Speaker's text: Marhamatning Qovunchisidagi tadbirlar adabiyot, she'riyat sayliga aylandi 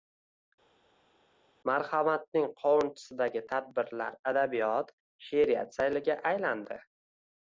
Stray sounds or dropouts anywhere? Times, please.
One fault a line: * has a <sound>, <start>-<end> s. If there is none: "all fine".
all fine